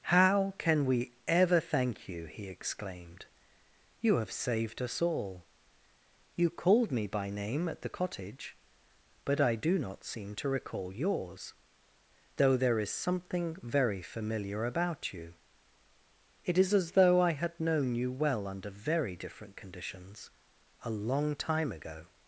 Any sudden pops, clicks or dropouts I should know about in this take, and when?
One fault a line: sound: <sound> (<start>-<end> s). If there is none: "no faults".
no faults